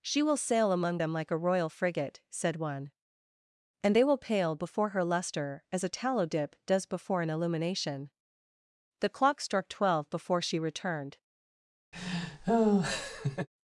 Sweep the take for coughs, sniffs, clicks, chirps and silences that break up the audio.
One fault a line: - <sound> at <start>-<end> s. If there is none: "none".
- laugh at 11.9-13.5 s